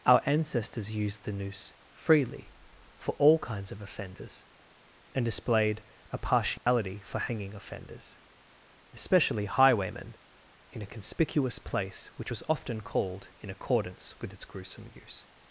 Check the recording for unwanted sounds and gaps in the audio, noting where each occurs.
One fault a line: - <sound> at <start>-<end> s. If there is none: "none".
- dropout at 6.6-6.7 s